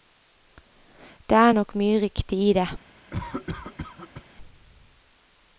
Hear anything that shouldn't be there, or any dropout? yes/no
yes